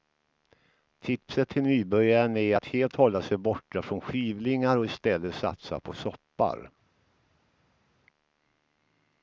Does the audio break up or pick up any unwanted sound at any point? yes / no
no